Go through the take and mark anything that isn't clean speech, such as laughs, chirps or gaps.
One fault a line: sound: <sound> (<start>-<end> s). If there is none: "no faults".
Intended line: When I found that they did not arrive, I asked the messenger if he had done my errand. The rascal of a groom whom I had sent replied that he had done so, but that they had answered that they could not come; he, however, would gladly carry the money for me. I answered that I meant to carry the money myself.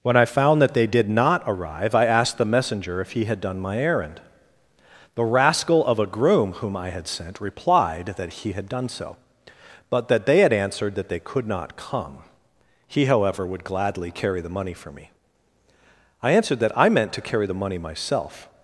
no faults